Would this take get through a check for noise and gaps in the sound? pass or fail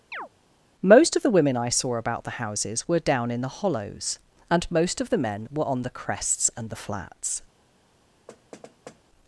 fail